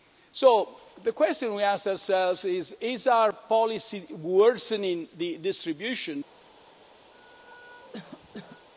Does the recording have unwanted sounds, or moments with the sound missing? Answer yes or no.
yes